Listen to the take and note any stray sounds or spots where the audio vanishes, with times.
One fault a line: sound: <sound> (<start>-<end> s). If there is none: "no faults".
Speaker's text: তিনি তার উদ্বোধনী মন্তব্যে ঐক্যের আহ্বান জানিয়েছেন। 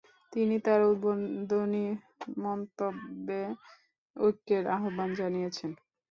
no faults